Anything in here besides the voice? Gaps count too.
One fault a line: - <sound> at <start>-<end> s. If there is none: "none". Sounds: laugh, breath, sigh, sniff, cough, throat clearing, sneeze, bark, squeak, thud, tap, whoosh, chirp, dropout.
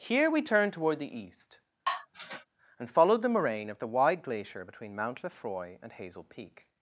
- sigh at 1.9-2.5 s